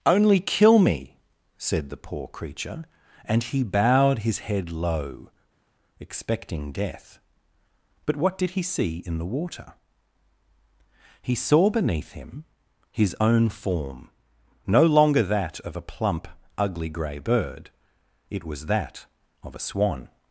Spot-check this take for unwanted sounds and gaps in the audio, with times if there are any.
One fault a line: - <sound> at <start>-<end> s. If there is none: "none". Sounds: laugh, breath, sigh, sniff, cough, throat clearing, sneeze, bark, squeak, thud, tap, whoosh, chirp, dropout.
none